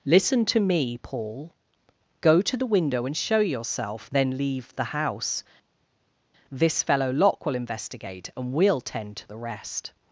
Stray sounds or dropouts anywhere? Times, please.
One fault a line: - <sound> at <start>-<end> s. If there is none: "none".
none